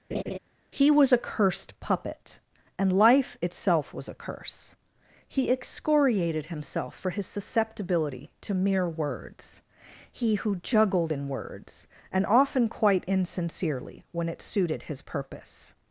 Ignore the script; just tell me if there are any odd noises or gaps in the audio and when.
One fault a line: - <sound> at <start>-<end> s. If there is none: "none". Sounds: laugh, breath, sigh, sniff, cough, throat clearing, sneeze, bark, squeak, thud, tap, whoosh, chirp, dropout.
- laugh at 0.1-0.4 s